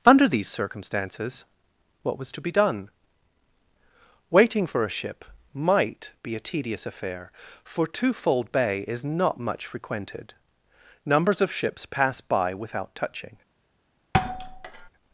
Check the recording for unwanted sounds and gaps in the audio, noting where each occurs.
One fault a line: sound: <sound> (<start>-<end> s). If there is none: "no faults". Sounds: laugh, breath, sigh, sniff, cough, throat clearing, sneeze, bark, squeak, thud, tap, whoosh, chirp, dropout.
sound: thud (14.1-14.9 s)